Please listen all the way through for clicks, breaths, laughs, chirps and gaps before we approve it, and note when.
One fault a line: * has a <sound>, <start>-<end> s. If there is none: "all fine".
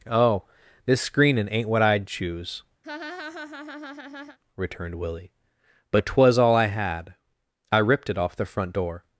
* has a laugh, 2.8-4.4 s